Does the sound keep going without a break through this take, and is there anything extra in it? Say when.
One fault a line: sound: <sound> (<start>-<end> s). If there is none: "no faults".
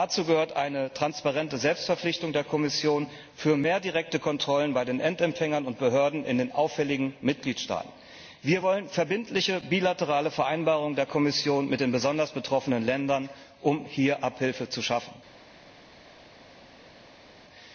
no faults